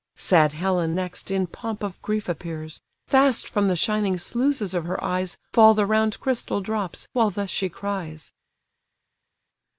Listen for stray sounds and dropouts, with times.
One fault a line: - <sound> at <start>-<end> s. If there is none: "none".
none